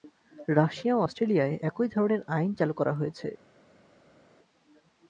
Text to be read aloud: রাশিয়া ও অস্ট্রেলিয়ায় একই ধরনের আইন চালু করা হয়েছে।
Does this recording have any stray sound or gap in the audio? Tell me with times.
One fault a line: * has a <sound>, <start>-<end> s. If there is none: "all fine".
all fine